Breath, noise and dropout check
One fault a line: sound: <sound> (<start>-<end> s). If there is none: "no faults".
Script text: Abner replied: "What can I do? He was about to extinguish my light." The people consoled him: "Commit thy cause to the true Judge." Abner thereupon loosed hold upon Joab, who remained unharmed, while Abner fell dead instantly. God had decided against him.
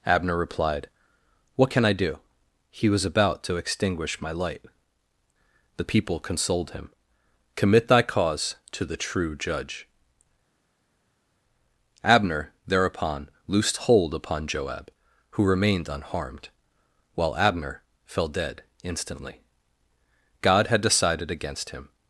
no faults